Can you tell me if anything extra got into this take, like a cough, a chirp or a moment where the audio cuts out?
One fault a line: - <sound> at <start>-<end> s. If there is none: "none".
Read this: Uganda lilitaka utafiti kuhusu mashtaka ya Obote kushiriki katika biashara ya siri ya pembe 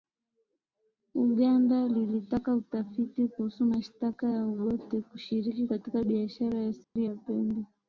- dropout at 6.8-7.0 s